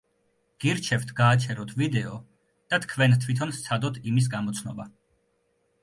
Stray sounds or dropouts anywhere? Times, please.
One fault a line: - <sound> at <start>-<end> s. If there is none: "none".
none